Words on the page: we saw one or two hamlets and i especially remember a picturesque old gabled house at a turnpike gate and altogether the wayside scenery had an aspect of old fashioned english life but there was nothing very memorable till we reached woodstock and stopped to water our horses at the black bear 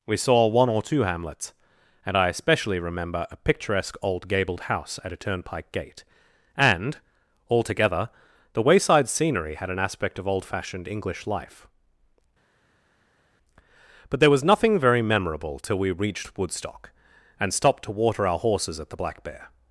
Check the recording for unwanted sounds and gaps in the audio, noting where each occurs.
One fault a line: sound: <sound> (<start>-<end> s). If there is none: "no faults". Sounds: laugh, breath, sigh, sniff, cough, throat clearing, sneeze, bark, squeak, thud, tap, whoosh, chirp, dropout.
no faults